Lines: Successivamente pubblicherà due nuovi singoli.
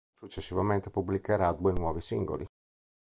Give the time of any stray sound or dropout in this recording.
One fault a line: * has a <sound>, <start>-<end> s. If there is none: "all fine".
all fine